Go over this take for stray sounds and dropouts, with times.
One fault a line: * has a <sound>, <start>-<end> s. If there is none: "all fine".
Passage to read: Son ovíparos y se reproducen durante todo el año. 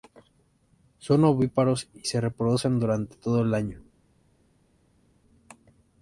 all fine